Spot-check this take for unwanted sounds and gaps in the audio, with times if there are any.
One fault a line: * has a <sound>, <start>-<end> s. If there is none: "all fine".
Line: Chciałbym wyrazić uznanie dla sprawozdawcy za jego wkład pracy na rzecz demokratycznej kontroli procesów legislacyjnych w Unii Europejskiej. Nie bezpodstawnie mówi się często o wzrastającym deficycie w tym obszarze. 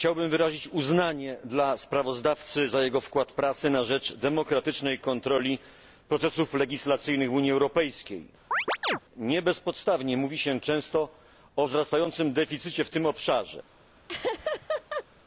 * has a chirp, 8.5-9.0 s
* has a laugh, 14.1-15.0 s